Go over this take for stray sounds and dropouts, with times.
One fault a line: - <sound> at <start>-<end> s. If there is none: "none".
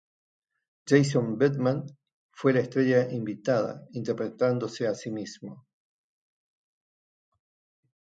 none